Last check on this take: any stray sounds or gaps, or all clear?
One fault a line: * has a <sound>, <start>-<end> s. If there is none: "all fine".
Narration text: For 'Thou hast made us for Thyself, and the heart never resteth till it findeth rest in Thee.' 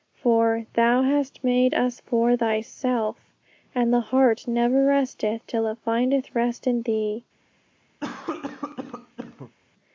* has a cough, 8.0-9.5 s